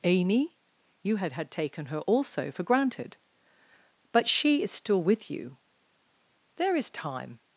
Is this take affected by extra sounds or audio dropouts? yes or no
no